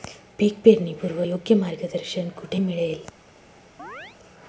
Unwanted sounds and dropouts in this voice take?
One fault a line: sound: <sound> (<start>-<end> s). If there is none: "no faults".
sound: chirp (3.8-4.2 s)